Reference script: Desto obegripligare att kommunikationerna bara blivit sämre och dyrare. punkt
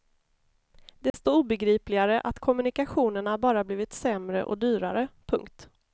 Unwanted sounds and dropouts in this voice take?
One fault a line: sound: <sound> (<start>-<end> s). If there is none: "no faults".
sound: dropout (1.1-1.1 s)